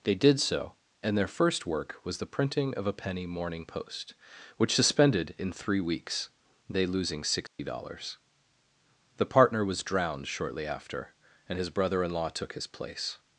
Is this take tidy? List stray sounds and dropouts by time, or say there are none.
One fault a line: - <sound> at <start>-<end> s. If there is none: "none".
- dropout at 7.5-7.6 s